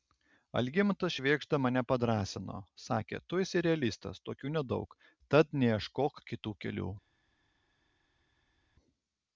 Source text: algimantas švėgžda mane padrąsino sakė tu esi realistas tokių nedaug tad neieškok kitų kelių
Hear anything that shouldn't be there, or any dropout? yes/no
no